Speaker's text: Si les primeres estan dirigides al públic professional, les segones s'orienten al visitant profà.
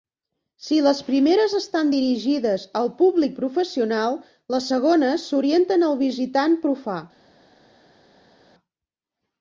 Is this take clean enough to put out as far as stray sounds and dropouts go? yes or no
yes